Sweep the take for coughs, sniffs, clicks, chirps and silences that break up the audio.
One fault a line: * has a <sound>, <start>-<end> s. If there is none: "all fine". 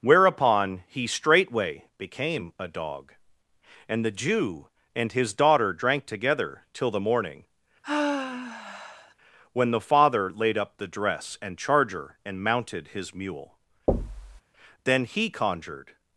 * has a sigh, 7.8-9.1 s
* has a thud, 13.9-14.4 s